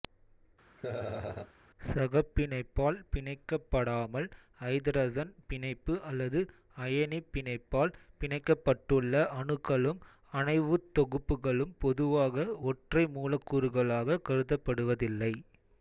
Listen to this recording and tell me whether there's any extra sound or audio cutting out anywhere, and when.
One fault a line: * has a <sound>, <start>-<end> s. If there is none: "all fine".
* has a laugh, 0.8-1.5 s